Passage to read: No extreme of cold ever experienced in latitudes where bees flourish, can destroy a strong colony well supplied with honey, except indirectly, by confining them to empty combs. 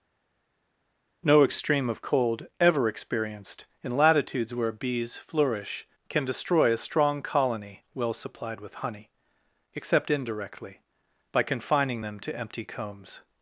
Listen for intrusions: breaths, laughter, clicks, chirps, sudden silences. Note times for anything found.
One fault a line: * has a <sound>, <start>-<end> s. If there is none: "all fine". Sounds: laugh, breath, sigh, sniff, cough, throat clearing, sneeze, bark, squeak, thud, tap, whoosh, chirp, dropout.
all fine